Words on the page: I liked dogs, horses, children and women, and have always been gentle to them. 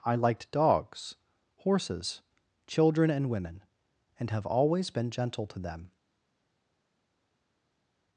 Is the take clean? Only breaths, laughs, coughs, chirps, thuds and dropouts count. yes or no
yes